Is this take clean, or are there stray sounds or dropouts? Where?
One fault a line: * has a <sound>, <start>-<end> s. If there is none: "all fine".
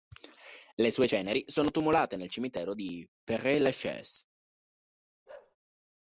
* has a bark, 5.3-5.6 s